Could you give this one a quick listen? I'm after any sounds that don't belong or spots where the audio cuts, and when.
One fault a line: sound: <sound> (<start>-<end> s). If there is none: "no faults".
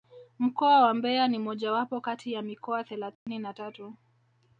sound: dropout (3.1-3.3 s)